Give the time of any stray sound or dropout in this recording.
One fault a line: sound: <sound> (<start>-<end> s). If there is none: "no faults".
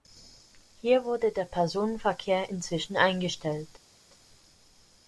no faults